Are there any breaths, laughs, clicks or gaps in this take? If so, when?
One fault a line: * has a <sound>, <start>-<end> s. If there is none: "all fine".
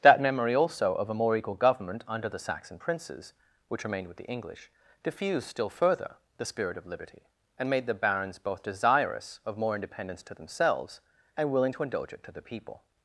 all fine